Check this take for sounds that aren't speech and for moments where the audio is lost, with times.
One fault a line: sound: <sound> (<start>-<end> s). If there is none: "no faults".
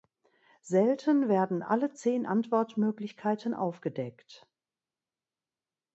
no faults